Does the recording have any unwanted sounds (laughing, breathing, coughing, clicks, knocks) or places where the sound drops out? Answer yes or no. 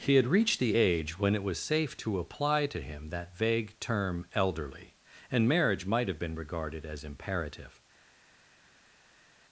no